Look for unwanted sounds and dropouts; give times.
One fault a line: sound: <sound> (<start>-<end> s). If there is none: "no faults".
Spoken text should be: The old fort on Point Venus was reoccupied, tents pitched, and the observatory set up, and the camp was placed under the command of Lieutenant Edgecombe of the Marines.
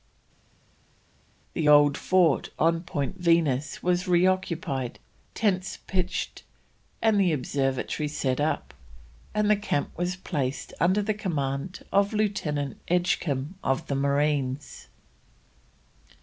no faults